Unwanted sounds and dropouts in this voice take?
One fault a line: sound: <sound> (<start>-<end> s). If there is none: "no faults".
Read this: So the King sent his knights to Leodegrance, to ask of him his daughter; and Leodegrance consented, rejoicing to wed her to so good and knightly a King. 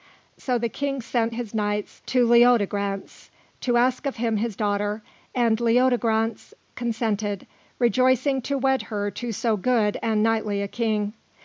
no faults